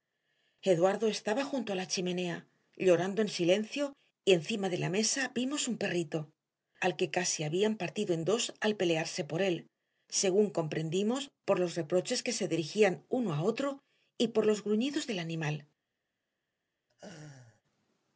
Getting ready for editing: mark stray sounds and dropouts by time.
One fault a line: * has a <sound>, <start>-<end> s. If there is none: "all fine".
* has a laugh, 16.9-17.6 s